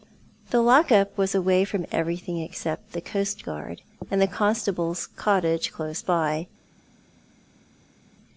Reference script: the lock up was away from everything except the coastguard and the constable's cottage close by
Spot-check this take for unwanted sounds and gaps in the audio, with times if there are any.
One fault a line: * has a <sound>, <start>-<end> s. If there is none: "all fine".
all fine